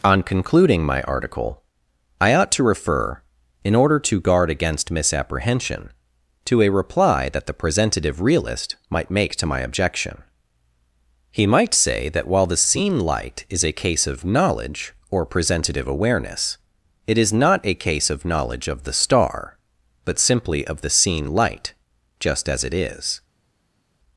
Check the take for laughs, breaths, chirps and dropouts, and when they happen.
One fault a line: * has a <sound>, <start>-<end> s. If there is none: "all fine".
all fine